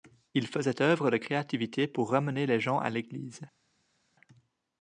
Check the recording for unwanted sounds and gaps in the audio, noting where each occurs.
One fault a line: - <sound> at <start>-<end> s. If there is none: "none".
none